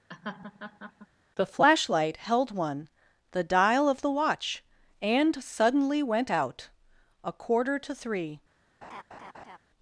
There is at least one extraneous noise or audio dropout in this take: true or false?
true